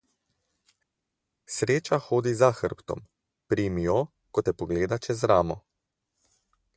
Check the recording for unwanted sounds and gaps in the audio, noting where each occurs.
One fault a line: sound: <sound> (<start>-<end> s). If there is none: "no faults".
no faults